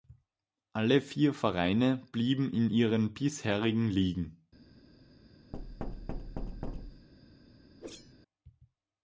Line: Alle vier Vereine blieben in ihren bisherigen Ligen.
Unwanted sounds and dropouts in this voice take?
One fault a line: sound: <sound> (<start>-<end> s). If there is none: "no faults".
sound: thud (5.5-7.1 s)
sound: whoosh (7.8-8.1 s)